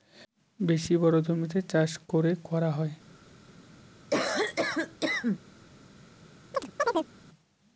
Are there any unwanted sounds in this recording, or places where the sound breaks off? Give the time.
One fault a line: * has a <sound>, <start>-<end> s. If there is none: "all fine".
* has a cough, 4.1-5.4 s
* has a chirp, 6.5-7.1 s